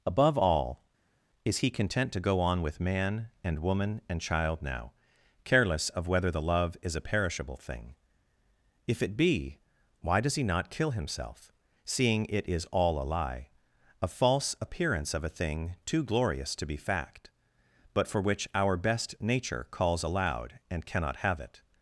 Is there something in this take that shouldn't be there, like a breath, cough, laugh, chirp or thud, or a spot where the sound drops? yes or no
no